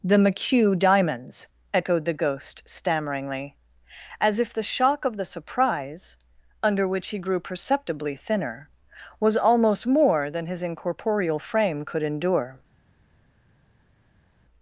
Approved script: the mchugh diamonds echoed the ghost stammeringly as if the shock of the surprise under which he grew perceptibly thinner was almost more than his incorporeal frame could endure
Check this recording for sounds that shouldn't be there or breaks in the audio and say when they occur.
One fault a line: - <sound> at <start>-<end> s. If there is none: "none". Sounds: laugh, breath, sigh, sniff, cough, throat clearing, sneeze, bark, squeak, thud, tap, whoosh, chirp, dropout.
none